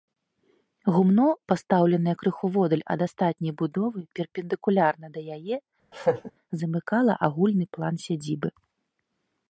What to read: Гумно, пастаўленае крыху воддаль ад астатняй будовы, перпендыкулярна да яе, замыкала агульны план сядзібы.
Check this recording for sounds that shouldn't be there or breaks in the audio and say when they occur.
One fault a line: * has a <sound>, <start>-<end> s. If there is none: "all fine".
* has a laugh, 5.9-6.3 s